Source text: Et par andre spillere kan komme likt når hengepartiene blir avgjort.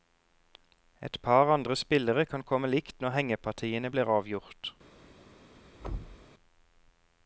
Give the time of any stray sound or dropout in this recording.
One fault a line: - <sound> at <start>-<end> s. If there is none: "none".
- thud at 5.8-6.3 s